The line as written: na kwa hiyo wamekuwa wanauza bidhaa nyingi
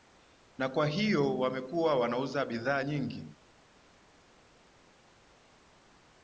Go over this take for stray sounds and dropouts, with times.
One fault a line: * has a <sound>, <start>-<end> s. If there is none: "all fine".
all fine